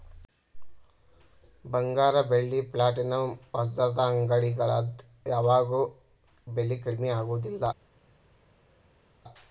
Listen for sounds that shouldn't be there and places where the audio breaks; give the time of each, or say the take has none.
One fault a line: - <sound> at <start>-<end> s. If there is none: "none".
none